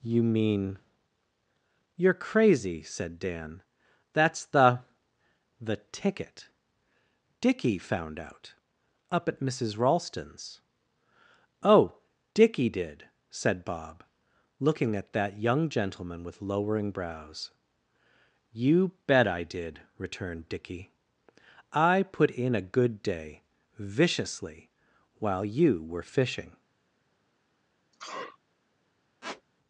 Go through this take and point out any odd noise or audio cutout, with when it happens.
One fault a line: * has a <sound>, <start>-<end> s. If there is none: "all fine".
* has a sneeze, 27.9-28.4 s
* has a squeak, 29.2-29.4 s